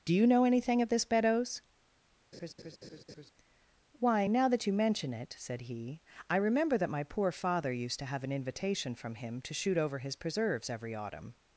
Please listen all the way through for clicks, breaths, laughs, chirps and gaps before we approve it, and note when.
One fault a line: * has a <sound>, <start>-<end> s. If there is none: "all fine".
* has a laugh, 2.3-3.3 s